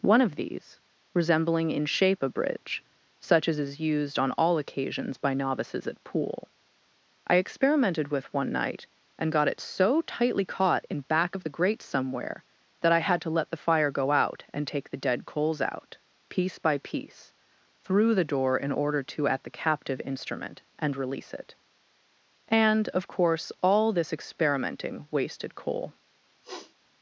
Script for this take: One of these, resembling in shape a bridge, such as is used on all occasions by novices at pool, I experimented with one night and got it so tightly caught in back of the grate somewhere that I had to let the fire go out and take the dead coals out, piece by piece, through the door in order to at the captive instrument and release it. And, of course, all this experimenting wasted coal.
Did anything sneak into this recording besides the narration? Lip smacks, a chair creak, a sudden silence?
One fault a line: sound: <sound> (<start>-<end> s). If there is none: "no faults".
sound: sniff (26.4-26.7 s)